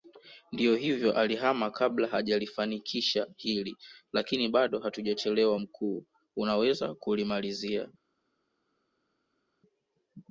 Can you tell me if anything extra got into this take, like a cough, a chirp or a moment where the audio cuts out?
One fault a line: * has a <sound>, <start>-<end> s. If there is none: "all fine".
all fine